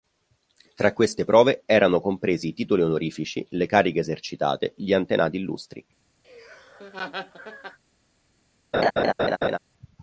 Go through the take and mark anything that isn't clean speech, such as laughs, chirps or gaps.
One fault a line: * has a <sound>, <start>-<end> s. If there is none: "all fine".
* has a laugh, 6.2-7.8 s
* has a laugh, 8.7-9.6 s